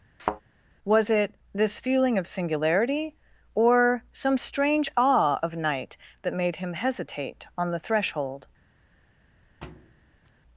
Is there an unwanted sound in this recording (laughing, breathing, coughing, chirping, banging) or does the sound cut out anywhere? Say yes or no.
yes